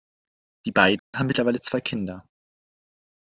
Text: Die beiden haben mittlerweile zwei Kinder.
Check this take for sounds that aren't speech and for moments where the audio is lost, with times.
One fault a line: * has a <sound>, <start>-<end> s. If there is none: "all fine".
* has a dropout, 1.0-1.1 s